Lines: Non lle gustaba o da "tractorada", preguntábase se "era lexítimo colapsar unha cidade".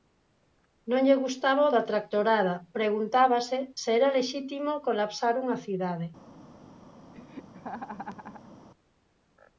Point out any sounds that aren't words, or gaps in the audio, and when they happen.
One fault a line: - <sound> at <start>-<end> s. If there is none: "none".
- laugh at 7.1-8.5 s